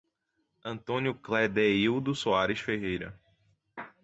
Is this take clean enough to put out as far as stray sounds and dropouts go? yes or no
yes